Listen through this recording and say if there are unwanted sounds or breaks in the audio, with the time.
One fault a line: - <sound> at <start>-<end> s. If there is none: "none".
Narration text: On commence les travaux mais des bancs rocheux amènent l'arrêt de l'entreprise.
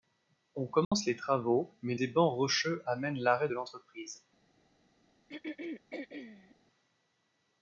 - dropout at 0.8-0.9 s
- throat clearing at 5.3-6.6 s